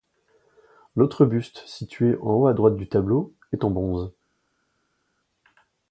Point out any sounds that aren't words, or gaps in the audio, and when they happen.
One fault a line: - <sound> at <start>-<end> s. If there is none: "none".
none